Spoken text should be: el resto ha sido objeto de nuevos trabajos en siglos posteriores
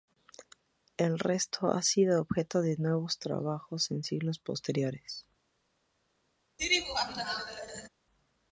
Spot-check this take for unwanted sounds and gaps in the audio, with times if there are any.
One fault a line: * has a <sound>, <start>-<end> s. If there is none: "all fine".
* has a laugh, 6.6-7.9 s